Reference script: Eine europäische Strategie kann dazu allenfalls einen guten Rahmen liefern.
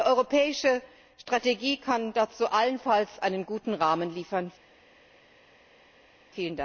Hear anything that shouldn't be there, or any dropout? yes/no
no